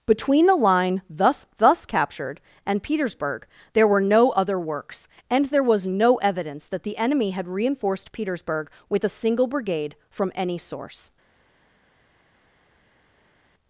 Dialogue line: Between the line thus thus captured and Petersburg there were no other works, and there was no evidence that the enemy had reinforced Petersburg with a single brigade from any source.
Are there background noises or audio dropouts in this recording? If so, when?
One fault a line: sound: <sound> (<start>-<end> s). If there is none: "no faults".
no faults